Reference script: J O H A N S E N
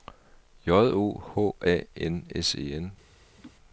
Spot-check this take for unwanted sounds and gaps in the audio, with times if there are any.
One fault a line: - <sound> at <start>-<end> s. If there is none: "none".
- laugh at 3.4-3.5 s